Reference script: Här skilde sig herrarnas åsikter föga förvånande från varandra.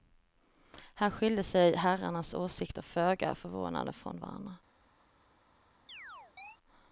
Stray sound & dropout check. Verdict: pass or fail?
fail